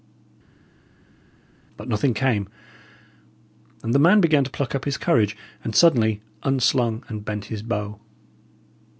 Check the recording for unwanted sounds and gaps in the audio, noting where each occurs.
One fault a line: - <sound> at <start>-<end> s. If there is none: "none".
none